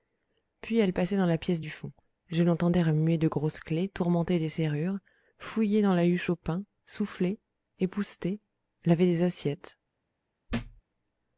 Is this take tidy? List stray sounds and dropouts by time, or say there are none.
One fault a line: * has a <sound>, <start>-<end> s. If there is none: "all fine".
* has a thud, 10.5-10.8 s